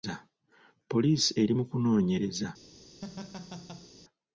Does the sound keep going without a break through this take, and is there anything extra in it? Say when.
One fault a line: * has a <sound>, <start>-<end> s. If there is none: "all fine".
* has a laugh, 3.0-3.9 s